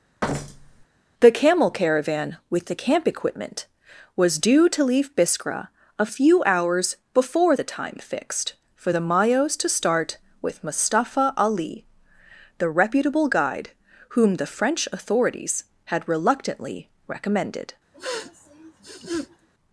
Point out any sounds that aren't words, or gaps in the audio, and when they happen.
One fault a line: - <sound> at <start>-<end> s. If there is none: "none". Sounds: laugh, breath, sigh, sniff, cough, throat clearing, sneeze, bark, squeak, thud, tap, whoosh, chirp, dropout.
- thud at 0.2-0.9 s
- sniff at 17.9-19.5 s